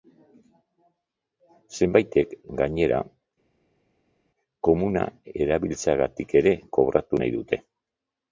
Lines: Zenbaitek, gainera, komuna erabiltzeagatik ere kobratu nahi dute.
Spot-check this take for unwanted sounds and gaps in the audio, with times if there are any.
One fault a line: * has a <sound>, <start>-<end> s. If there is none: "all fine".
all fine